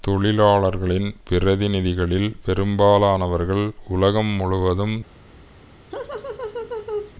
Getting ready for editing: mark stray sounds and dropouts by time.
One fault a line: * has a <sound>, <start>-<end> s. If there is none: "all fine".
* has a laugh, 5.9-7.1 s